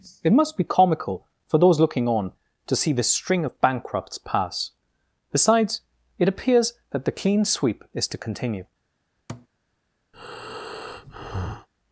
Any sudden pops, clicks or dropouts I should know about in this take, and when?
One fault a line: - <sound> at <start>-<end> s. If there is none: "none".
- thud at 9.3-9.5 s
- breath at 10.1-11.7 s